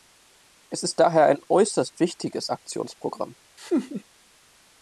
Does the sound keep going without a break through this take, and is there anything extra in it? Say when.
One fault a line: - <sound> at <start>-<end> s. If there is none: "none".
- laugh at 3.6-4.0 s